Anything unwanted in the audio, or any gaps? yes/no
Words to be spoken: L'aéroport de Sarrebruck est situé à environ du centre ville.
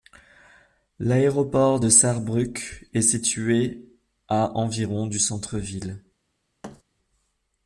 yes